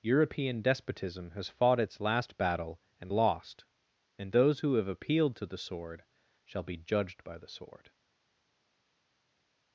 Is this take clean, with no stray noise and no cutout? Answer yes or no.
yes